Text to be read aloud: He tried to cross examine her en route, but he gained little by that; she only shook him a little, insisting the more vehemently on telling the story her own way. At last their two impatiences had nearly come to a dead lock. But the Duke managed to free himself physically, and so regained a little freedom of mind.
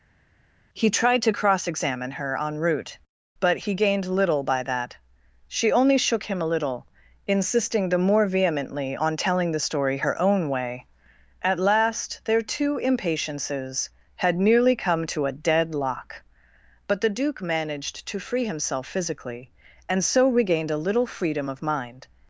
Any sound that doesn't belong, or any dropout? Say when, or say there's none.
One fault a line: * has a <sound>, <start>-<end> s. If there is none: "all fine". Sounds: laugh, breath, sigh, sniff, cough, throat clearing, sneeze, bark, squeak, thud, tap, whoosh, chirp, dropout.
all fine